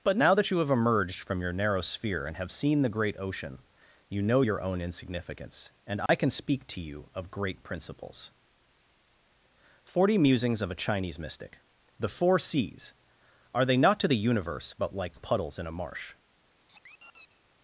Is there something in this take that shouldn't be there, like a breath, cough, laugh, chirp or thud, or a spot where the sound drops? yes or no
yes